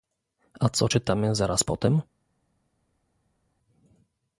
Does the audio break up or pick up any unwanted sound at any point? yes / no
no